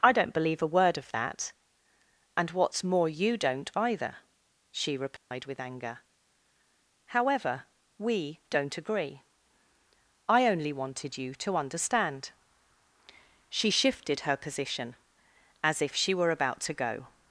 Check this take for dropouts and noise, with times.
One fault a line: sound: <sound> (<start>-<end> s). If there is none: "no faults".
sound: dropout (5.2-5.3 s)